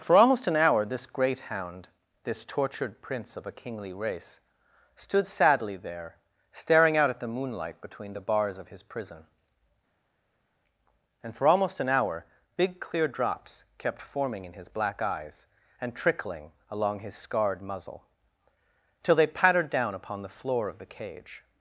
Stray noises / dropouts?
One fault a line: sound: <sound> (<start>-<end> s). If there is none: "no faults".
no faults